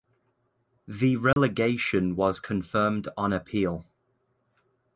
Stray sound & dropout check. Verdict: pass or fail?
fail